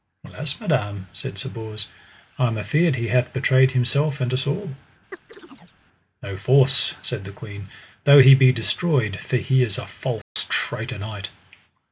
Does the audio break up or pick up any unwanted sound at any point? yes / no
yes